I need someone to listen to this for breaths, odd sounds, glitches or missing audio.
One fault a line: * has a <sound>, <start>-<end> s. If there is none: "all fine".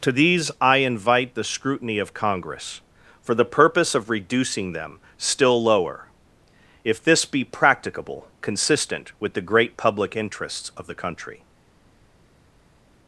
all fine